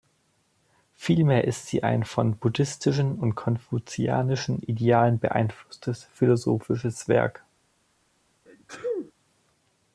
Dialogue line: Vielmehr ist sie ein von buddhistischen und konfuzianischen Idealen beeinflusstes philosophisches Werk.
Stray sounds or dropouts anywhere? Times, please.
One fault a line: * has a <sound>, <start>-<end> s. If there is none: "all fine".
* has a sneeze, 8.5-9.1 s